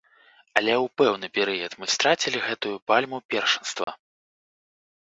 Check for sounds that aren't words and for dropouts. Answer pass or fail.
fail